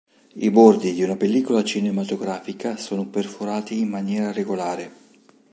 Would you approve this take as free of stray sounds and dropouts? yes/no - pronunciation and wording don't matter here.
yes